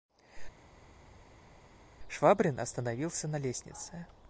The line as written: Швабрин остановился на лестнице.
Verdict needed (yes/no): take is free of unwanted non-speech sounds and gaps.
yes